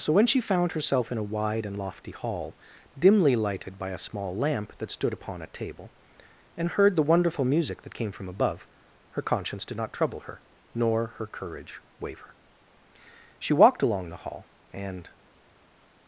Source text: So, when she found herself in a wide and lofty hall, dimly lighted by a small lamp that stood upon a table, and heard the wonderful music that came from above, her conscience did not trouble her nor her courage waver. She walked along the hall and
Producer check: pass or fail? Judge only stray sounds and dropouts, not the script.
pass